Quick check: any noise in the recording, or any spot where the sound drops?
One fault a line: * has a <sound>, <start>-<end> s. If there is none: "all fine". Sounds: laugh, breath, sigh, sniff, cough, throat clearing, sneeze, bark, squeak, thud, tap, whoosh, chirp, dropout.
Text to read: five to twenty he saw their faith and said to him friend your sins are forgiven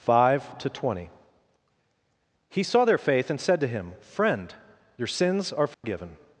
* has a dropout, 5.7-5.8 s